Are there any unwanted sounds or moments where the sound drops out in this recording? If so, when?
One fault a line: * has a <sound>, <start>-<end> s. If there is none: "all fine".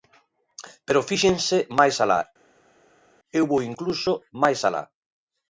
all fine